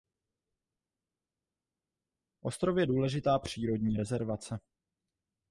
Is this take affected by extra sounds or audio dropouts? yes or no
no